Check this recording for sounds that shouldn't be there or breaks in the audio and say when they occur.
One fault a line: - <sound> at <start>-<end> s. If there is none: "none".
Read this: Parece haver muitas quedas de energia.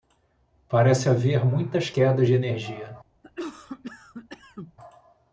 - cough at 3.2-4.7 s